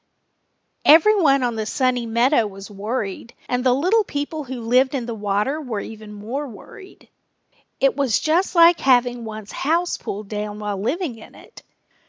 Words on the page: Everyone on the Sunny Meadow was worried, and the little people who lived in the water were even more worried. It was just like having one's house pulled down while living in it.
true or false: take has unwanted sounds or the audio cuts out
false